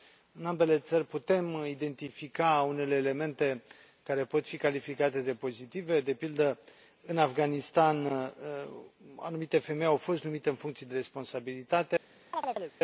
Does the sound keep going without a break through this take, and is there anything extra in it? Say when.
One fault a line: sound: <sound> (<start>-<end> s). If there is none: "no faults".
sound: chirp (12.3-12.7 s)